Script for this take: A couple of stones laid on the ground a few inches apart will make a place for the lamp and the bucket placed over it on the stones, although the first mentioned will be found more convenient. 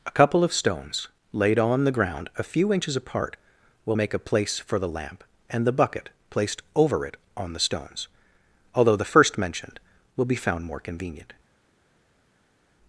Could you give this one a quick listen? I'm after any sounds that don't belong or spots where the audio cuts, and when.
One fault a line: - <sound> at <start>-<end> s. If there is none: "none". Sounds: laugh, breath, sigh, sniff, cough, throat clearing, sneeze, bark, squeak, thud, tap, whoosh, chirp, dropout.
none